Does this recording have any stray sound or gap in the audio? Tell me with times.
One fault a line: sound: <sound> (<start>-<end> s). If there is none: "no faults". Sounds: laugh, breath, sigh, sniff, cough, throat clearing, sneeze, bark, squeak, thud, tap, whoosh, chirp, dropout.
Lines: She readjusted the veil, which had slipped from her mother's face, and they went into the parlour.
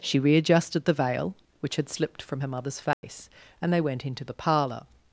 sound: dropout (2.9-3.0 s)